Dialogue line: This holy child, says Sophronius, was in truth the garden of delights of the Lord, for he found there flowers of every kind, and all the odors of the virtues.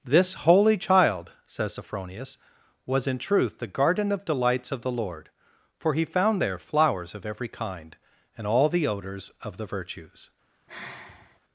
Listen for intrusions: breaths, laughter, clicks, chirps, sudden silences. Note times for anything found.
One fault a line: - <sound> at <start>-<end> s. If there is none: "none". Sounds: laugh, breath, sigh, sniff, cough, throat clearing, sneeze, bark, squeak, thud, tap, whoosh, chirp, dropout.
- sigh at 10.7-11.4 s